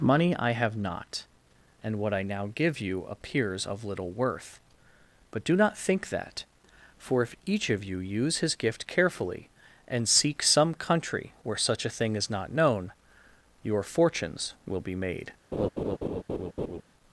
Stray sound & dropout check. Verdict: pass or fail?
fail